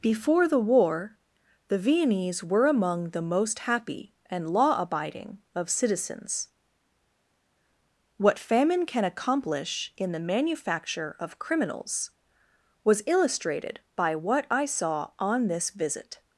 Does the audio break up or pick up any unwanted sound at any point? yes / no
no